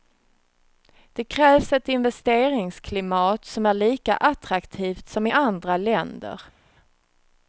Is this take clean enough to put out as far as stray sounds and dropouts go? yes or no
yes